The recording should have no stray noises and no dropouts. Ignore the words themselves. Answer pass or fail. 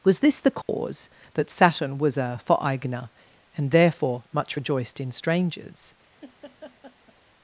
fail